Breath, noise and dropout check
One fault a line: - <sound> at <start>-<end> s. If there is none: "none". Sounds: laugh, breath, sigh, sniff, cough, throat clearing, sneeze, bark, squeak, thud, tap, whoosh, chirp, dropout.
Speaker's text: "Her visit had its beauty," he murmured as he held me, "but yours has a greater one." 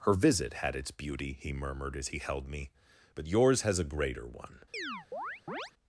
- chirp at 4.7-5.7 s